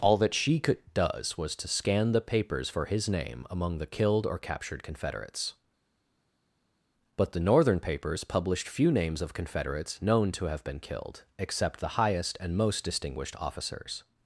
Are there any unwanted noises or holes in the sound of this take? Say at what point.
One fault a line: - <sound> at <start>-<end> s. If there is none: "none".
none